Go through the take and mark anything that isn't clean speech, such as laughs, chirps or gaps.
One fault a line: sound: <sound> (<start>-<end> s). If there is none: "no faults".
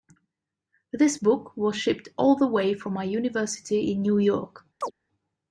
sound: chirp (4.8-4.9 s)